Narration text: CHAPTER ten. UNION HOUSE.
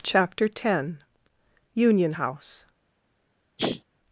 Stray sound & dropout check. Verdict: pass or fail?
fail